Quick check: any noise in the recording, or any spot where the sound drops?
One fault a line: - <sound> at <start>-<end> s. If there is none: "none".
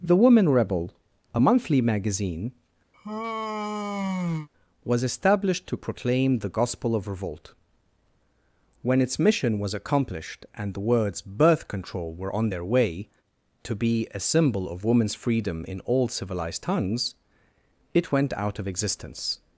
- sigh at 2.9-4.5 s